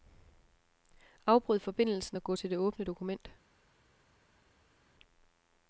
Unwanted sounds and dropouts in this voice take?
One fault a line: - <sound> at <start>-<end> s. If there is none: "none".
none